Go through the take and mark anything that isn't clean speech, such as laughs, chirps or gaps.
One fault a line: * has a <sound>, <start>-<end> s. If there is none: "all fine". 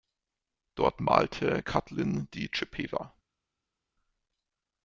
all fine